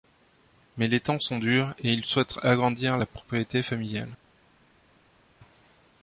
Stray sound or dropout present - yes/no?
no